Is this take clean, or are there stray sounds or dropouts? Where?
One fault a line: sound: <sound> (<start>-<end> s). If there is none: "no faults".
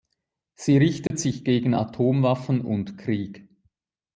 sound: dropout (1.1-1.1 s)